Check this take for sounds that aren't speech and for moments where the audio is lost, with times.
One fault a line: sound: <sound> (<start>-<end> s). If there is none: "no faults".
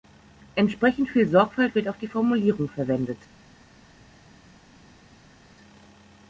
no faults